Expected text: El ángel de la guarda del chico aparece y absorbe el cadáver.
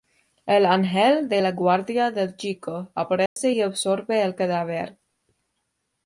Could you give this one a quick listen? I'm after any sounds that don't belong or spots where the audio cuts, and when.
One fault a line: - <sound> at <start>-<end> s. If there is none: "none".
- dropout at 3.3-3.4 s